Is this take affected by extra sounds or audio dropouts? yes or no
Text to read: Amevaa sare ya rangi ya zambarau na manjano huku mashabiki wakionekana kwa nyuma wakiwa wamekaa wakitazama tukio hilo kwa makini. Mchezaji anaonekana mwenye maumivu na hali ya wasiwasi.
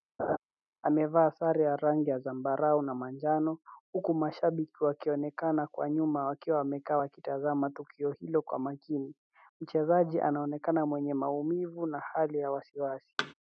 yes